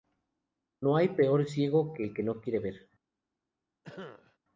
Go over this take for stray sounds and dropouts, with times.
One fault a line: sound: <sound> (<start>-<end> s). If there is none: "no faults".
sound: cough (3.8-4.4 s)